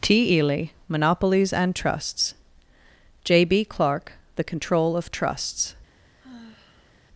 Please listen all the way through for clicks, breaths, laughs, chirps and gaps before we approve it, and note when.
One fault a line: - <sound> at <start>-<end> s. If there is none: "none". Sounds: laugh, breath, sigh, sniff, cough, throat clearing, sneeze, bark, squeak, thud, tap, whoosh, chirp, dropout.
- sigh at 6.2-6.9 s